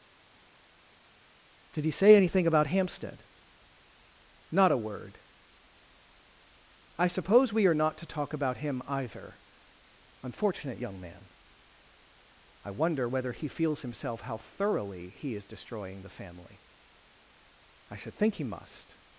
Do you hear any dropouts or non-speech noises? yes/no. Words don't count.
no